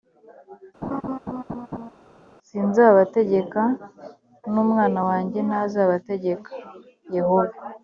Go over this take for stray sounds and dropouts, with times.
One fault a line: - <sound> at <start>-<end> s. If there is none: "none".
- laugh at 0.8-1.9 s